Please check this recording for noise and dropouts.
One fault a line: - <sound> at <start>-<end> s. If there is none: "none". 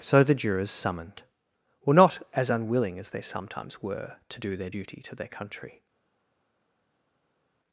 none